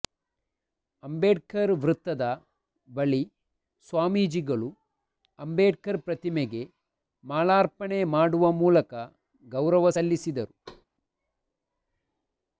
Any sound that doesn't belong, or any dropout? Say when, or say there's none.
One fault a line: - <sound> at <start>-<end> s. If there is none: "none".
- thud at 10.7-10.9 s